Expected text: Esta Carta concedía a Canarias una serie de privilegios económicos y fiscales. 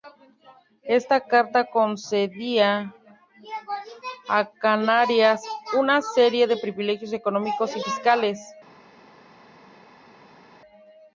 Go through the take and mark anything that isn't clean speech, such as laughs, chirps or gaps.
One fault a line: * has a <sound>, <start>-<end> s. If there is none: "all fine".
all fine